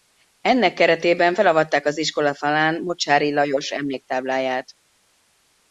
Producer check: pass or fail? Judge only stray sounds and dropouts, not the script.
pass